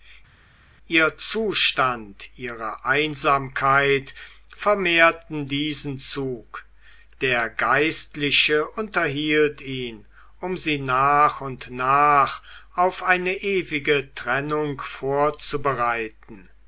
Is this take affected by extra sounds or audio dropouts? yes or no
no